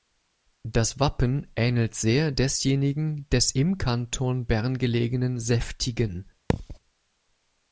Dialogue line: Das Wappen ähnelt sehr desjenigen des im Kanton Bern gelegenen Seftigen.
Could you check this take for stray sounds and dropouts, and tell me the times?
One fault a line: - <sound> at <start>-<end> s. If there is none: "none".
- thud at 6.5-6.8 s